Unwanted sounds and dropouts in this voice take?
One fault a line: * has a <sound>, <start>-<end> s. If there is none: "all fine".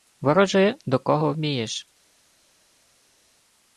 all fine